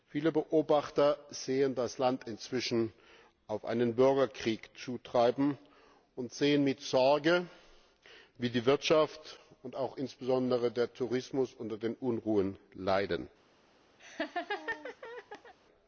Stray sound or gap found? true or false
true